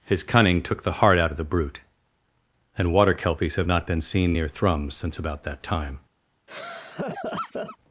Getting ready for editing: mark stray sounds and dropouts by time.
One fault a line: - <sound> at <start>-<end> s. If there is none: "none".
- laugh at 6.5-7.8 s